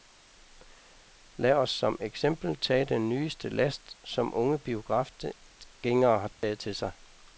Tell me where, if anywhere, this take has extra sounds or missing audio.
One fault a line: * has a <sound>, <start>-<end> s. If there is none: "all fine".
* has a dropout, 6.3-6.4 s